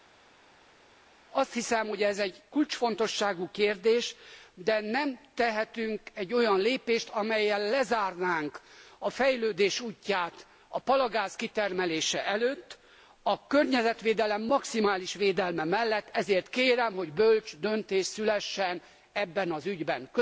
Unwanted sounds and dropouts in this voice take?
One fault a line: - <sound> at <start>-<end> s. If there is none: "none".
none